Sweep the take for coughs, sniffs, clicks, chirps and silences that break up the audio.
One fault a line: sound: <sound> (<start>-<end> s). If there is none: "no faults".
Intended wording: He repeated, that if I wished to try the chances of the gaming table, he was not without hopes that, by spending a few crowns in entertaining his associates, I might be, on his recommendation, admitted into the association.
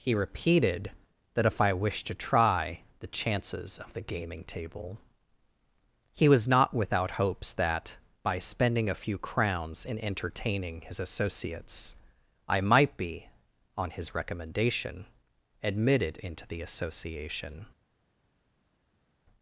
no faults